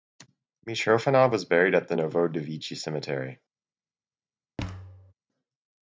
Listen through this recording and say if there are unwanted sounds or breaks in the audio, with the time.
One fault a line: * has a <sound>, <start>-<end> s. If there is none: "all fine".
* has a thud, 4.6-5.1 s